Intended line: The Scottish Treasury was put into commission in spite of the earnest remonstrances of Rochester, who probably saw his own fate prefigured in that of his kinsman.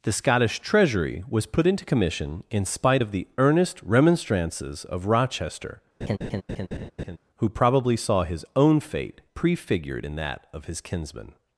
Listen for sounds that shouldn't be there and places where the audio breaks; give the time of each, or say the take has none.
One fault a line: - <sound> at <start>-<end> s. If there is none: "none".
- laugh at 6.0-7.2 s